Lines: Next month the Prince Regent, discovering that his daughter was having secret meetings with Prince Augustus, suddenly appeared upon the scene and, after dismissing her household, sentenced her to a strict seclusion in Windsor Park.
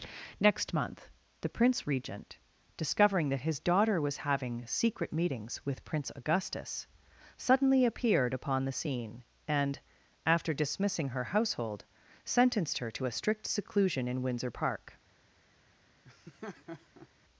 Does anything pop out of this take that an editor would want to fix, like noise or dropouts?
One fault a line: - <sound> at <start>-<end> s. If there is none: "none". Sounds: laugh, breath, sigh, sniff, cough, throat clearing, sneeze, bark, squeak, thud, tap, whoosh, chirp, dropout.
- laugh at 16.0-17.1 s